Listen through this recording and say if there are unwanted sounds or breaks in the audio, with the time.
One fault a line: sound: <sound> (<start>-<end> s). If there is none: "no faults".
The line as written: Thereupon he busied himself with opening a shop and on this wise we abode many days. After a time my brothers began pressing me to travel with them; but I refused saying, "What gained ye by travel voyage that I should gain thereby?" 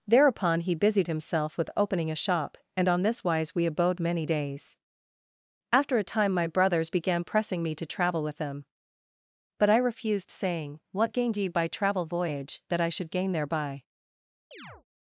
sound: chirp (14.5-14.8 s)